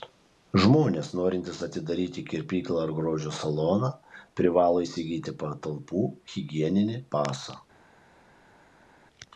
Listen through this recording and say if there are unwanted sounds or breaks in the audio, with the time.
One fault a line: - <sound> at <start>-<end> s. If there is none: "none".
none